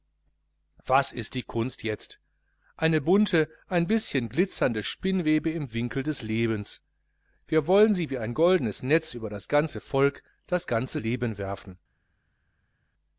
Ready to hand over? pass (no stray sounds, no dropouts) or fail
pass